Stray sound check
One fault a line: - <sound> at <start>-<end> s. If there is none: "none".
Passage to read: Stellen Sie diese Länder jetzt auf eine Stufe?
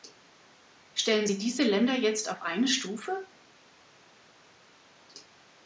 none